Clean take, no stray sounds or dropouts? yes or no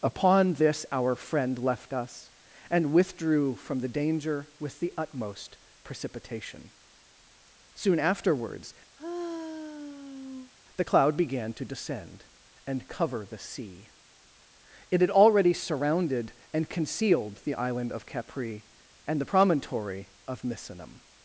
no